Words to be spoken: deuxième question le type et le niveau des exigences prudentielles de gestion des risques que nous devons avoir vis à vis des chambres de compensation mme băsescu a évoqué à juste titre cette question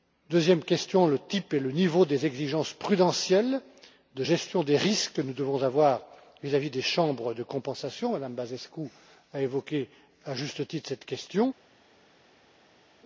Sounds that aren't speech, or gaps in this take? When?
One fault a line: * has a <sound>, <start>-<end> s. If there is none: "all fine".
all fine